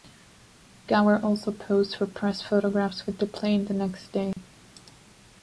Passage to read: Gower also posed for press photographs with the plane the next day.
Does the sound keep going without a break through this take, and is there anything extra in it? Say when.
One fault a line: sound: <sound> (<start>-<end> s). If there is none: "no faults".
sound: dropout (4.3-4.4 s)